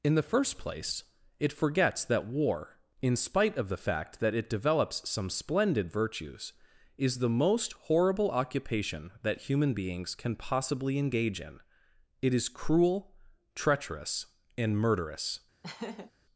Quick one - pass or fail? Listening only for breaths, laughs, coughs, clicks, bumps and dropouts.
fail